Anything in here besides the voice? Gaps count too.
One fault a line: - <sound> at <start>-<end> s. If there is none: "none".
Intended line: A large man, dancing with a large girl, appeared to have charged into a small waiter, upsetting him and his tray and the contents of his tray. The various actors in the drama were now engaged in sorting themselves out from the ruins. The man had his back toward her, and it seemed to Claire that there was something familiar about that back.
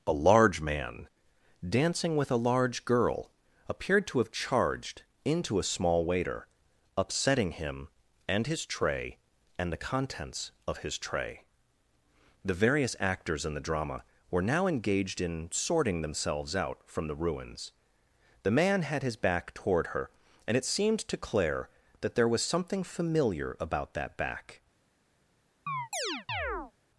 - chirp at 25.7-26.7 s